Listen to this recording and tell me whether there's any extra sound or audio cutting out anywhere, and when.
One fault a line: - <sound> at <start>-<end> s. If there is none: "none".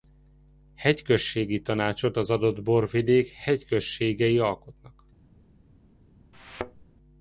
- thud at 6.3-6.9 s